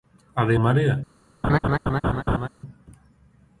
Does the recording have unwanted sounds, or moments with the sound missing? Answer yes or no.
yes